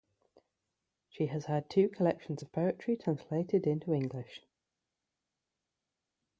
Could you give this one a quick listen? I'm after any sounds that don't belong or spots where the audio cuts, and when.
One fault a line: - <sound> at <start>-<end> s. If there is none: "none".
none